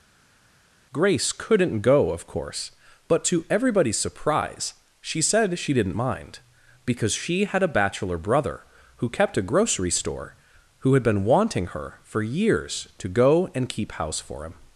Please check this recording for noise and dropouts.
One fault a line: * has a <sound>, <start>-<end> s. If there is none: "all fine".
all fine